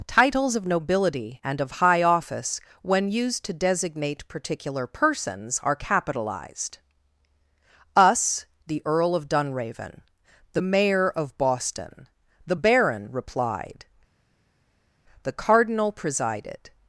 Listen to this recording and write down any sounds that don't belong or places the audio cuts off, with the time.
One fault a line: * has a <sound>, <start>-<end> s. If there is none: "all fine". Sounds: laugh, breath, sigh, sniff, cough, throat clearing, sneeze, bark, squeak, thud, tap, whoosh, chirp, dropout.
all fine